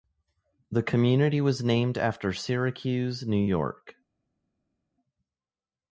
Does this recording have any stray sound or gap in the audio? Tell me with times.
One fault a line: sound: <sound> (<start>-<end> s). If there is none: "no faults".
no faults